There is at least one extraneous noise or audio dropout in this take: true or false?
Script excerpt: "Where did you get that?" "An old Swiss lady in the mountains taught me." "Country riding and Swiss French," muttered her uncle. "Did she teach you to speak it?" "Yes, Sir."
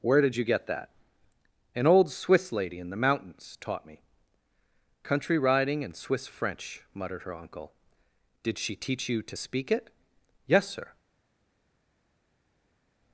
false